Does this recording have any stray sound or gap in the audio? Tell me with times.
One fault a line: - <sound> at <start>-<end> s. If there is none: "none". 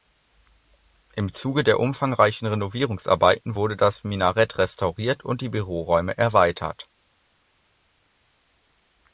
none